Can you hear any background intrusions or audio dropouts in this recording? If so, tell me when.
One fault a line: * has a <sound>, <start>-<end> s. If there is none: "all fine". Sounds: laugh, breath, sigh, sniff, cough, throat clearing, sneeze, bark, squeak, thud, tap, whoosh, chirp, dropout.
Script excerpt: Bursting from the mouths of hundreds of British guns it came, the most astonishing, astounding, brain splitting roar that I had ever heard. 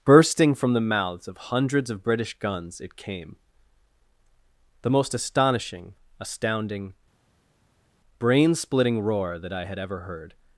all fine